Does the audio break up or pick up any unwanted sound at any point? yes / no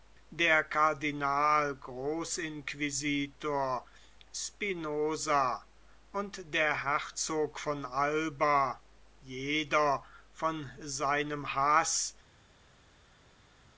no